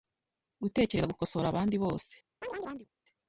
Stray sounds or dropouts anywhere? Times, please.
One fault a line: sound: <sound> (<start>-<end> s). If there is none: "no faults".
sound: chirp (2.4-2.9 s)